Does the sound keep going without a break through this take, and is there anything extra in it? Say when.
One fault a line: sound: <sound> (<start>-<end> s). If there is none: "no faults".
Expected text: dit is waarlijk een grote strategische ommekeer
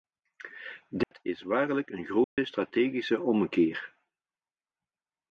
sound: dropout (1.0-1.1 s)
sound: dropout (2.2-2.4 s)